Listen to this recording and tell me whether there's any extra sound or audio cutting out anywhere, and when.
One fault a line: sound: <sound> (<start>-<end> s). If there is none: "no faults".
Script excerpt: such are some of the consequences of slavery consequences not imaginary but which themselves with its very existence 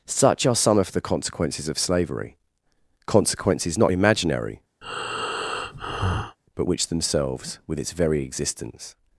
sound: breath (4.8-6.4 s)